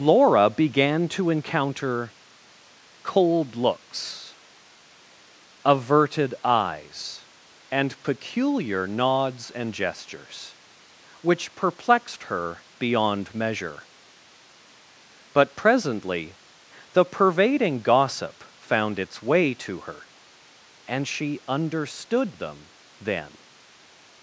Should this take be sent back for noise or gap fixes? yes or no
no